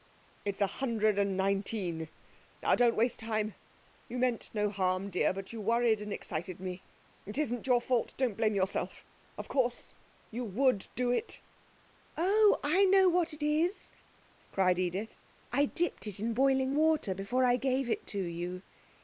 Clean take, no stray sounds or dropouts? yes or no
yes